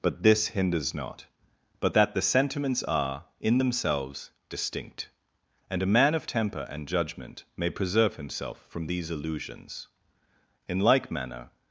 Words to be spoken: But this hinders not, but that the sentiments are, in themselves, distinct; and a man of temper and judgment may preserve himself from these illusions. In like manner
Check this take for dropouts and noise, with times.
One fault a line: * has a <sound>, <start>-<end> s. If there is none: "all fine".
all fine